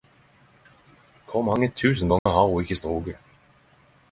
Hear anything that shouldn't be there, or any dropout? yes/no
yes